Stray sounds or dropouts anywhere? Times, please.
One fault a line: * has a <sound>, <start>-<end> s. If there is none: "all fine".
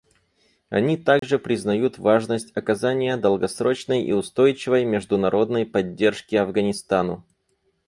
* has a dropout, 1.2-1.2 s